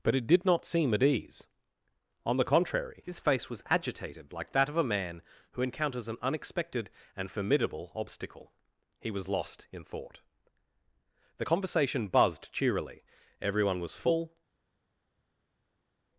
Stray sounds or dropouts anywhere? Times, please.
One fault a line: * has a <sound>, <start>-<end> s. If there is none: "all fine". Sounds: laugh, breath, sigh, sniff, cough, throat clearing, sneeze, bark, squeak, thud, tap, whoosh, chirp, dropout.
all fine